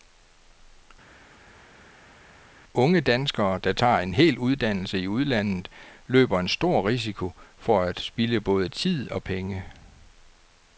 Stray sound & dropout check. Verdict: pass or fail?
pass